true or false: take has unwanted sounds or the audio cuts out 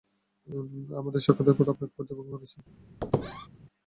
true